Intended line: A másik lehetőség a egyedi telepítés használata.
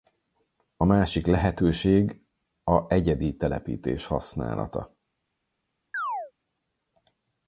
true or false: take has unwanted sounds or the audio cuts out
true